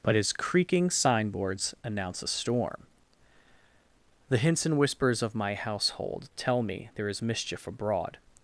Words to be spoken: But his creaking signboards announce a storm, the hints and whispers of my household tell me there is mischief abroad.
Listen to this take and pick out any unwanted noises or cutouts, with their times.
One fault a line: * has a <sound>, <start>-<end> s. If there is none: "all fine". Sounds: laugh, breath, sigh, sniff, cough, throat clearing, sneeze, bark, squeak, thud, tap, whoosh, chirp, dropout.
all fine